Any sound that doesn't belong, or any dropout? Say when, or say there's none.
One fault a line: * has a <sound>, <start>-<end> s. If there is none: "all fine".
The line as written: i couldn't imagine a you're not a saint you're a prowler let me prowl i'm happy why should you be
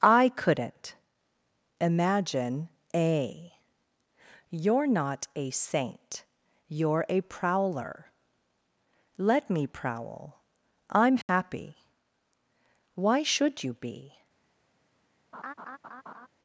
* has a dropout, 11.2-11.3 s
* has a laugh, 15.3-16.3 s